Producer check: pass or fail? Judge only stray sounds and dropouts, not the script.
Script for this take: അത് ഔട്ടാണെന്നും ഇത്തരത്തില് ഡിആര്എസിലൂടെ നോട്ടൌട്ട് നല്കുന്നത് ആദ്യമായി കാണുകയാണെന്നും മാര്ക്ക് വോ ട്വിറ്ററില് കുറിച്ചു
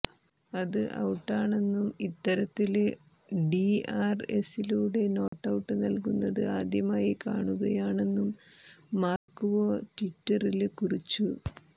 fail